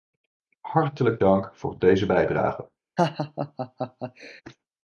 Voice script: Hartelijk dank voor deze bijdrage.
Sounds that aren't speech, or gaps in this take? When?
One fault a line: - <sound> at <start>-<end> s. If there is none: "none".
- laugh at 3.0-4.4 s